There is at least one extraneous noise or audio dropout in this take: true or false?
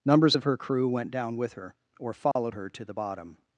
true